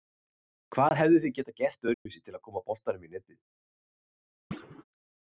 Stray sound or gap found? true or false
true